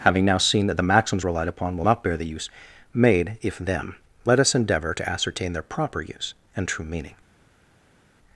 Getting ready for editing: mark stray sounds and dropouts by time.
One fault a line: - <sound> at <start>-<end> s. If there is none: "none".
none